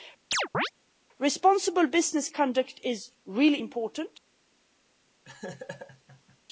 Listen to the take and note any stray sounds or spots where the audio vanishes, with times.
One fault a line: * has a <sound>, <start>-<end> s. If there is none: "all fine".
* has a chirp, 0.3-0.7 s
* has a laugh, 5.2-6.4 s